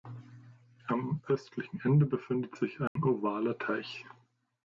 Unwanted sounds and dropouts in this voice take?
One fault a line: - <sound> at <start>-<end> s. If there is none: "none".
- dropout at 2.9-3.0 s